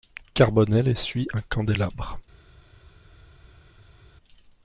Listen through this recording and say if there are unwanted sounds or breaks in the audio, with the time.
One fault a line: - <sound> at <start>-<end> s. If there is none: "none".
none